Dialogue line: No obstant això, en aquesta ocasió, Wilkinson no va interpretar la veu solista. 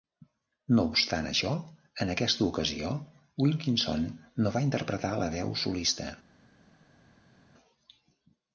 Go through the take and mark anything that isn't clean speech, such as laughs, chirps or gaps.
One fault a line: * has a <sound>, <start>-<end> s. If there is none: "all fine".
all fine